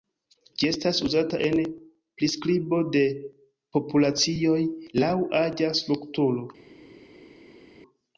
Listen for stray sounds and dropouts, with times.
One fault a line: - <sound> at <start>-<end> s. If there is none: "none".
none